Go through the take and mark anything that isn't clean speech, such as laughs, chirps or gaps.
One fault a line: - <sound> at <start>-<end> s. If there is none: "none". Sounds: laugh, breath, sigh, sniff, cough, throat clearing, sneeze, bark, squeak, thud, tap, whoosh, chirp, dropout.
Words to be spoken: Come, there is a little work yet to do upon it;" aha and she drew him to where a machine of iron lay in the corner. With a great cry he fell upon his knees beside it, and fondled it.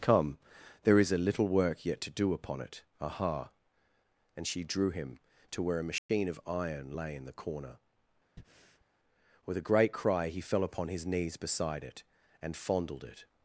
- dropout at 6.0-6.1 s
- breath at 8.4-8.9 s